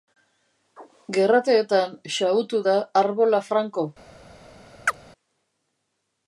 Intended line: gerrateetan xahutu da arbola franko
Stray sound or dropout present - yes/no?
yes